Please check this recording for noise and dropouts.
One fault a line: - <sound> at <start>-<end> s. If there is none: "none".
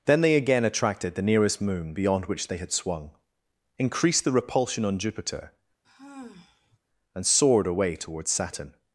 - sigh at 5.8-6.8 s